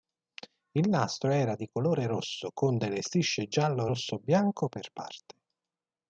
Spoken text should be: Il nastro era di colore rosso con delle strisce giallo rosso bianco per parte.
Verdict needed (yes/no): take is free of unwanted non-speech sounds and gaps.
yes